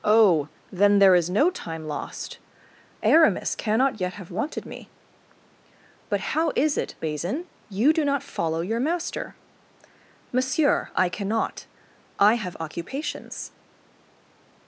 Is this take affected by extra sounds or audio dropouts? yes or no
no